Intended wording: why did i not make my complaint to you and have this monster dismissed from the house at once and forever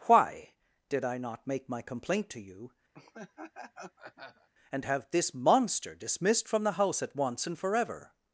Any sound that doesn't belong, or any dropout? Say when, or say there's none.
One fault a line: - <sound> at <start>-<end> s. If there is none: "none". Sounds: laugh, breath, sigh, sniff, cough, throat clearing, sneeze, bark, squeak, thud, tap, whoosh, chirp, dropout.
- laugh at 2.9-4.5 s